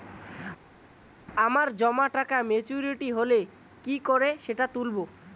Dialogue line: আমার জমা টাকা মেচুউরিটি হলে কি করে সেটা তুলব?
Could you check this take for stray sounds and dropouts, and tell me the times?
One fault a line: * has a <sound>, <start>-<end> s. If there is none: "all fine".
all fine